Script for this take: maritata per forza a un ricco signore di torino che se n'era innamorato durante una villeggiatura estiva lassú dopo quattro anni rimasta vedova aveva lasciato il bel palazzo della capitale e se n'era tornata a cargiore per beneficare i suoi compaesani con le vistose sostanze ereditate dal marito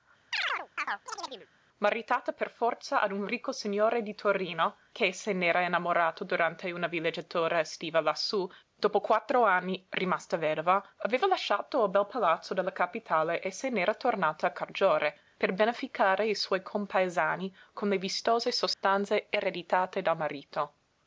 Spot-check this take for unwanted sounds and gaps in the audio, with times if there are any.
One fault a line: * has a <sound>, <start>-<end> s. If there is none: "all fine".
* has a chirp, 0.3-1.5 s
* has a dropout, 18.7-18.8 s